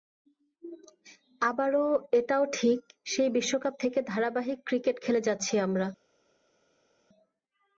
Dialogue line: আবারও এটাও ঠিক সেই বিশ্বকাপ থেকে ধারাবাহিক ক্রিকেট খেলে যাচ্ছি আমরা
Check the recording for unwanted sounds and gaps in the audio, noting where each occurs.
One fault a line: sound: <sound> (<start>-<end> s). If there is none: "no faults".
no faults